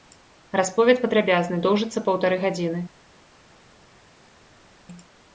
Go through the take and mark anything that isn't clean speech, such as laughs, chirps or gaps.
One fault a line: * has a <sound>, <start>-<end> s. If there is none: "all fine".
all fine